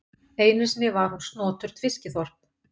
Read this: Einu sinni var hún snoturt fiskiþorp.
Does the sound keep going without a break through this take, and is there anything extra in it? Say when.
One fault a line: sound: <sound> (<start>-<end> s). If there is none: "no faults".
no faults